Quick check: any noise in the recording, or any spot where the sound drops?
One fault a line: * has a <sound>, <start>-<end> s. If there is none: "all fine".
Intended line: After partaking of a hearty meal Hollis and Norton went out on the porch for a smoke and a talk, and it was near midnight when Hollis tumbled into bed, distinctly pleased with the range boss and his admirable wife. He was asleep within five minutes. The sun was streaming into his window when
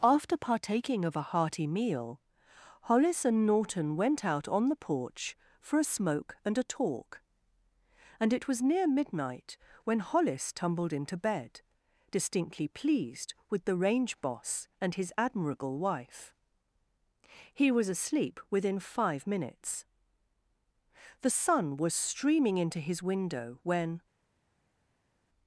all fine